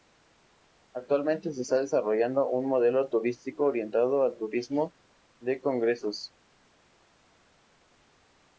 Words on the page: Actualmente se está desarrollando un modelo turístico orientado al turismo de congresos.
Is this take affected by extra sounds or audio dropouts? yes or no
no